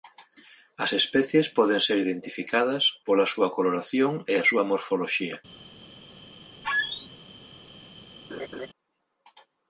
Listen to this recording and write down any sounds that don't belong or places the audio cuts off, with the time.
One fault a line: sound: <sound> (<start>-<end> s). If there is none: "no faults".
sound: squeak (6.6-7.1 s)
sound: laugh (8.3-8.7 s)